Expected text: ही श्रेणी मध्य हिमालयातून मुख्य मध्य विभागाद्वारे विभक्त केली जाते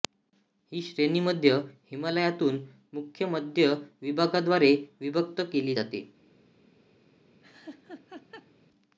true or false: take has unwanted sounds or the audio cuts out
true